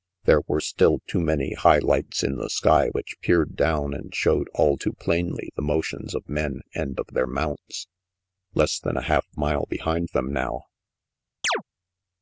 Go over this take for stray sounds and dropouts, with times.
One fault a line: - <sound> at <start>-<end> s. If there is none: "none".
- chirp at 11.4-11.6 s